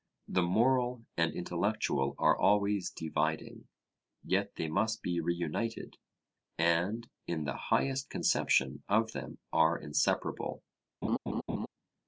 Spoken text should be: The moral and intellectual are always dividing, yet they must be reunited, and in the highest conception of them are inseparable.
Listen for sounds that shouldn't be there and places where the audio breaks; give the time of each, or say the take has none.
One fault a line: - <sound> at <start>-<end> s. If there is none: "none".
- laugh at 11.0-11.7 s